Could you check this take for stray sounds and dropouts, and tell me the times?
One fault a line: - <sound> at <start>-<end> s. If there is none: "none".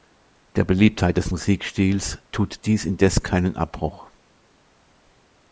none